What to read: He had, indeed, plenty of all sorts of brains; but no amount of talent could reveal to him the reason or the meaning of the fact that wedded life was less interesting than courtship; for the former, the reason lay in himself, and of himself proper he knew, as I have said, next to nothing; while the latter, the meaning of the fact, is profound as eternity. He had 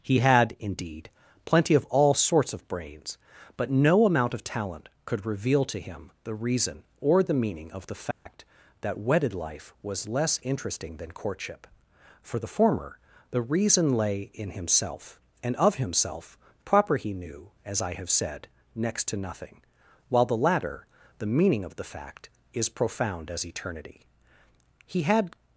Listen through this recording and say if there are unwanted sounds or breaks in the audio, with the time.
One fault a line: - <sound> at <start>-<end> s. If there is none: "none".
- dropout at 8.1-8.3 s